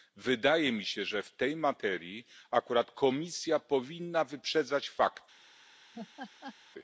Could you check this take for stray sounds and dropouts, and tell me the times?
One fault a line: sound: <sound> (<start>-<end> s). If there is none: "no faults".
sound: laugh (5.9-6.6 s)